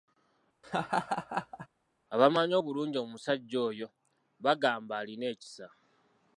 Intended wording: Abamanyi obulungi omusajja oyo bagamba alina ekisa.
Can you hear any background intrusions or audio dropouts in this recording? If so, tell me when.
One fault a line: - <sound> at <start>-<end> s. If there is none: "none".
- laugh at 0.6-1.7 s